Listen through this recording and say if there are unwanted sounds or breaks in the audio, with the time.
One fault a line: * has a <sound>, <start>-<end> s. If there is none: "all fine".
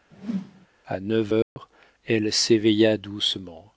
* has a whoosh, 0.1-0.7 s
* has a dropout, 1.4-1.6 s